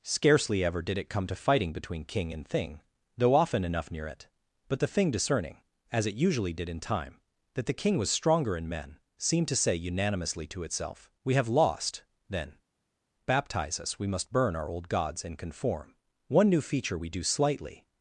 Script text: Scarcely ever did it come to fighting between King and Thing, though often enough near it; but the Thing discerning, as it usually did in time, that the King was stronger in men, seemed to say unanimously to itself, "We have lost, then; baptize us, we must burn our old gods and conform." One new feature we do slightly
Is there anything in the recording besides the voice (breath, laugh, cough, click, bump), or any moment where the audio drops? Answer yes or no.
no